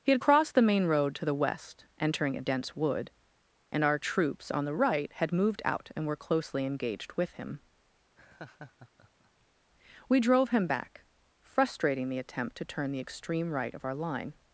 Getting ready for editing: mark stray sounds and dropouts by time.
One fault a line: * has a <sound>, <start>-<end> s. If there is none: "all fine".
* has a laugh, 8.2-9.5 s